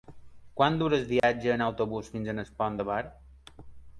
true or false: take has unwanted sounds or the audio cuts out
true